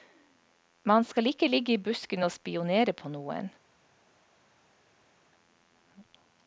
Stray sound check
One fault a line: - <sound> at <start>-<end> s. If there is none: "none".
none